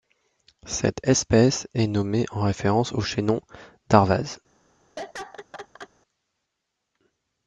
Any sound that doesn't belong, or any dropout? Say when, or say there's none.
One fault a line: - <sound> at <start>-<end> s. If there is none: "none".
- laugh at 5.0-5.9 s